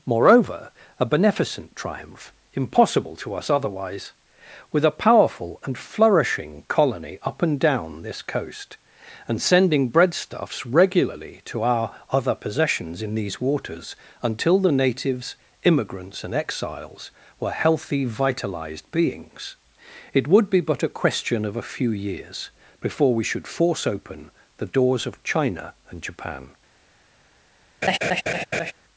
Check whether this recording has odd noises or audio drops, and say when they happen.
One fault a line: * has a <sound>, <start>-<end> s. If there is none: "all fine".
* has a laugh, 27.8-28.7 s